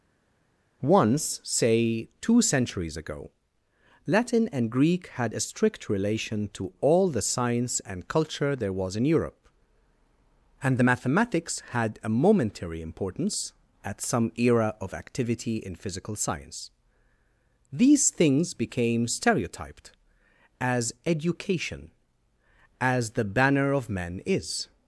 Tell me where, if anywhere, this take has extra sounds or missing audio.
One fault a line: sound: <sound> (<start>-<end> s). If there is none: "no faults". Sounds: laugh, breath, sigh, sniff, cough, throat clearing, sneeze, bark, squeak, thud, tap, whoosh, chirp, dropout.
no faults